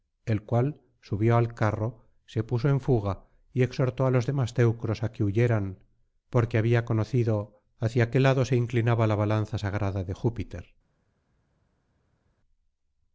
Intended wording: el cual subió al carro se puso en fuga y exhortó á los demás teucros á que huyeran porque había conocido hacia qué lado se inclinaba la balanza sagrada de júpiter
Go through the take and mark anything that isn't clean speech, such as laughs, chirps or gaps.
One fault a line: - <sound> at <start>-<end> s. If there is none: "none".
none